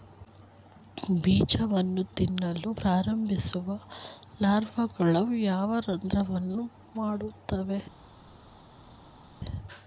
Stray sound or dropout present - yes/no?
no